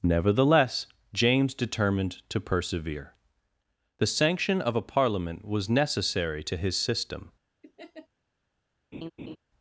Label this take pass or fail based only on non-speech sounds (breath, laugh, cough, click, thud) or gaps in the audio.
fail